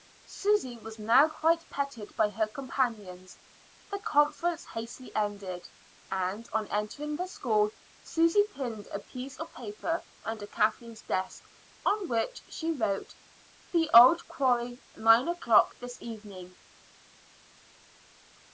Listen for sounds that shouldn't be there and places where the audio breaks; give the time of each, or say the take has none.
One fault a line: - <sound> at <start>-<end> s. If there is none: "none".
none